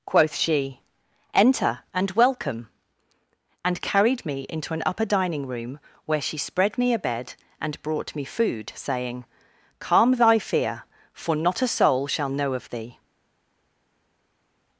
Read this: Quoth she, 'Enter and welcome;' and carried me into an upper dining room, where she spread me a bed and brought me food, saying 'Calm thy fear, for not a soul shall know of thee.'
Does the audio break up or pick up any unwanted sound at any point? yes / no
no